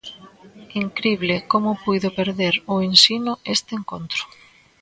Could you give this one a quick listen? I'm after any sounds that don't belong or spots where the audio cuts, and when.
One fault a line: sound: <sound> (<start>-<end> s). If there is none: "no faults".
no faults